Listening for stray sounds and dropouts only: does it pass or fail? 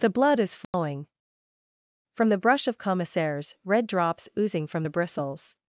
fail